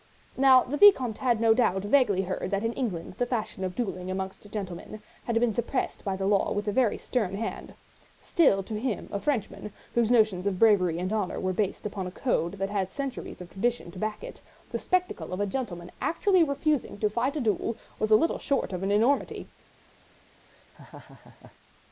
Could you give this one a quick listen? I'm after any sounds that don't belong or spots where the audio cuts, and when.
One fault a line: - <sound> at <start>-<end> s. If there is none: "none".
- laugh at 20.5-21.6 s